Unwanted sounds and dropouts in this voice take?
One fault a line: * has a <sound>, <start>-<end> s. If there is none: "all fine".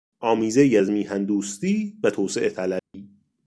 * has a dropout, 2.8-2.9 s